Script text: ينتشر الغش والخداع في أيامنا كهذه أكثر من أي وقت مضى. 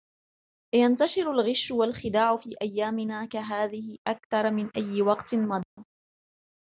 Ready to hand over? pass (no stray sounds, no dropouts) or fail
fail